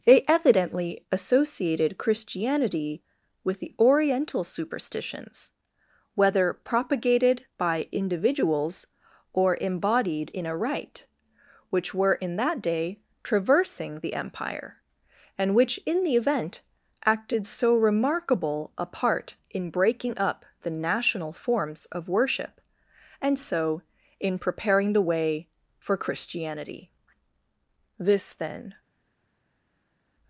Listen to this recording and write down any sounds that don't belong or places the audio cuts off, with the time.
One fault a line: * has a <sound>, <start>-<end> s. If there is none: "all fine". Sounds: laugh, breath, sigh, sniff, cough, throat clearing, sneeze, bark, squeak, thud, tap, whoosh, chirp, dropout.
all fine